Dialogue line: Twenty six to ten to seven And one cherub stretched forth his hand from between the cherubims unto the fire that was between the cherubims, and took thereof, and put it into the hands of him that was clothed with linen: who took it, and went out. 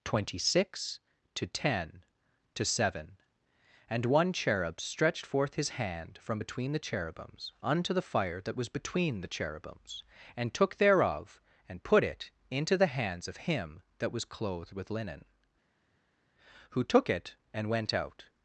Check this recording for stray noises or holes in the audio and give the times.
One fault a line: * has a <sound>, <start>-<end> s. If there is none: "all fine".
all fine